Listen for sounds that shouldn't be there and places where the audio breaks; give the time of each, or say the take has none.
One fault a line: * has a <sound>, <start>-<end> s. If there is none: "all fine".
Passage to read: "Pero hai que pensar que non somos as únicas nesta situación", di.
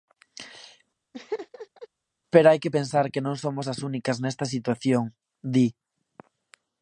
* has a laugh, 1.1-1.9 s